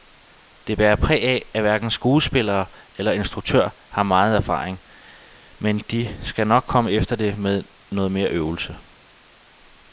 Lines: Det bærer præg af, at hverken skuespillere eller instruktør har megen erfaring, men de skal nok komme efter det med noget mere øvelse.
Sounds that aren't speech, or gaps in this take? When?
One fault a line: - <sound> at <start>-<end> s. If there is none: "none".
none